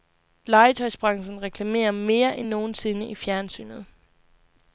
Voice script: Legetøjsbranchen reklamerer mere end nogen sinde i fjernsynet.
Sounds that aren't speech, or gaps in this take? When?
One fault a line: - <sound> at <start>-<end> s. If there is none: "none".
none